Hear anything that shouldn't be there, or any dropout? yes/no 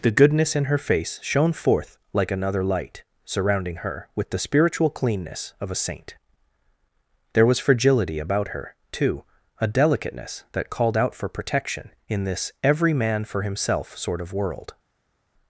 no